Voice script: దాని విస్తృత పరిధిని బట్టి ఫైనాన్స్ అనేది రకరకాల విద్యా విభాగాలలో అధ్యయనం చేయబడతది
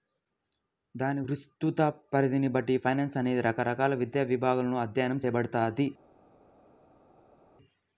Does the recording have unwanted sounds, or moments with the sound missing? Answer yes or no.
no